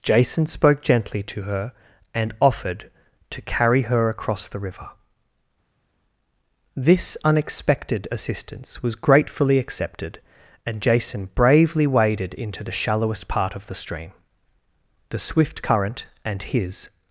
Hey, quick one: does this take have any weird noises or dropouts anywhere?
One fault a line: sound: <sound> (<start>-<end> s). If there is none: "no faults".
no faults